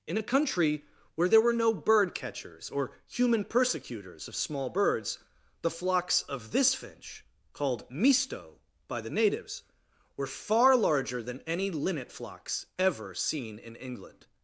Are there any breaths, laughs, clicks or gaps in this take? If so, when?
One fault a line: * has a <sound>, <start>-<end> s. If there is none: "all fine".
all fine